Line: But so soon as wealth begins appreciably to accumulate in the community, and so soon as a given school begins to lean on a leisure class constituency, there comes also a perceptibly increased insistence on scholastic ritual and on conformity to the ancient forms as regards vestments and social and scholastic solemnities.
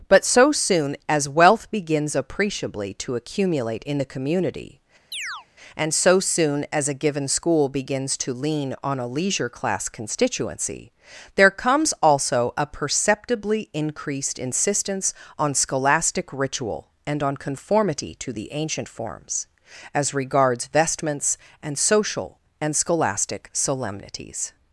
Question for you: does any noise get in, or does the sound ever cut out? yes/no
yes